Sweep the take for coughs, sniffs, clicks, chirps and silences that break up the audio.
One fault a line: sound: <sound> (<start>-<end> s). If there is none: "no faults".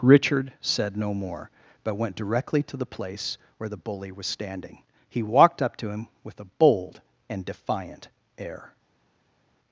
no faults